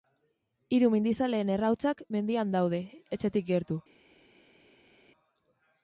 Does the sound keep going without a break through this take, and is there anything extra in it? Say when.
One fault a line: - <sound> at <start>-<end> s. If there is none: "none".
none